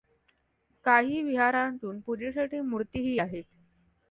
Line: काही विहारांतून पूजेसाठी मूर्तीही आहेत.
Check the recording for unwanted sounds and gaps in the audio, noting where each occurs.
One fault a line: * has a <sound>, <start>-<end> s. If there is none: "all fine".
all fine